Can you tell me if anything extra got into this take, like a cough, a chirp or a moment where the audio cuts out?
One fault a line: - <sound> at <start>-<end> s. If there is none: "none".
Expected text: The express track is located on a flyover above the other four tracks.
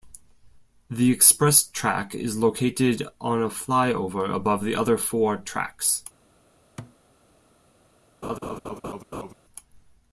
- thud at 6.8-7.0 s
- laugh at 8.2-9.3 s